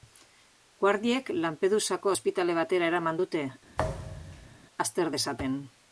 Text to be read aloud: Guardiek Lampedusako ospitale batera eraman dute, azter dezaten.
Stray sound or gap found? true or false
true